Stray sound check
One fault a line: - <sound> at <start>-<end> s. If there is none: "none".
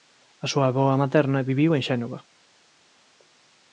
none